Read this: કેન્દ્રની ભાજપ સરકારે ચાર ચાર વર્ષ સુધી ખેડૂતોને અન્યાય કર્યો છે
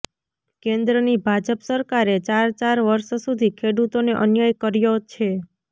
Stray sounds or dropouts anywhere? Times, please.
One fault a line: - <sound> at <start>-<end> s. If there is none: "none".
none